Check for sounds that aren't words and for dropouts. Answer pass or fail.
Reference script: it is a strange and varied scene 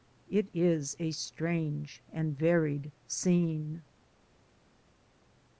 pass